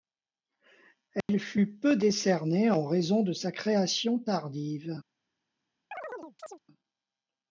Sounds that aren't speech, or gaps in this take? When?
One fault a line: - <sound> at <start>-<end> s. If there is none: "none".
- dropout at 1.2-1.3 s
- chirp at 5.9-6.6 s